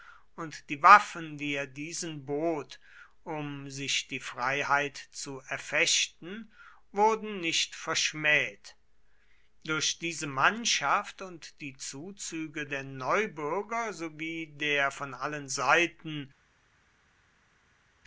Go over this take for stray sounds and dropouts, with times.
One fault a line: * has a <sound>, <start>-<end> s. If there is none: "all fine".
all fine